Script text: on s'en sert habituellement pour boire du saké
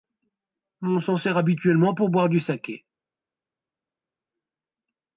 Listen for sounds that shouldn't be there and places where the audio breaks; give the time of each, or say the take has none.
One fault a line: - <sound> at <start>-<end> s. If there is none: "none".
none